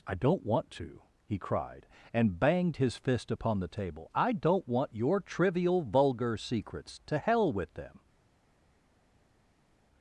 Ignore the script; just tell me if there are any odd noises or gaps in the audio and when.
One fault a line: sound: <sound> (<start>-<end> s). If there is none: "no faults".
no faults